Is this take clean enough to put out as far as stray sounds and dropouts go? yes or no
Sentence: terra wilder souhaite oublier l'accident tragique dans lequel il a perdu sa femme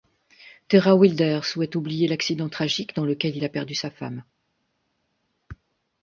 yes